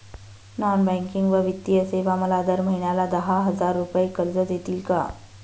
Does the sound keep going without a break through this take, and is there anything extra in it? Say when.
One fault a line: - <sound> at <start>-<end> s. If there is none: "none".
none